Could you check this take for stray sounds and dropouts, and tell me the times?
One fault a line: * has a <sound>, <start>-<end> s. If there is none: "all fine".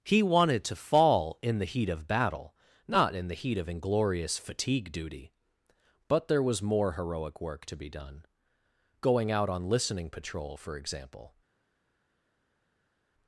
all fine